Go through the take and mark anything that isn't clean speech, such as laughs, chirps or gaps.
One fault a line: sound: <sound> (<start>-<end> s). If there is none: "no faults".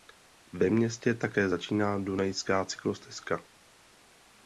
no faults